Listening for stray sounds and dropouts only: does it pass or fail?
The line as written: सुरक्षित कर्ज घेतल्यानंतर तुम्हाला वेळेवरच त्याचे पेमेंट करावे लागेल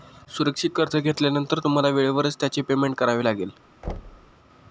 fail